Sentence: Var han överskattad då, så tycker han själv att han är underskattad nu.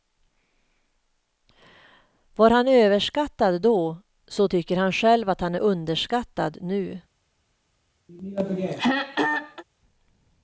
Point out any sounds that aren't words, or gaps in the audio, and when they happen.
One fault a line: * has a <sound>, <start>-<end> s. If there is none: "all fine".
* has a throat clearing, 8.1-9.6 s